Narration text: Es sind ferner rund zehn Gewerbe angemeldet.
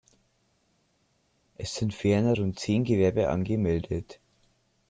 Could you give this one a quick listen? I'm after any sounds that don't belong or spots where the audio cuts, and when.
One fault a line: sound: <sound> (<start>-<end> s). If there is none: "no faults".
no faults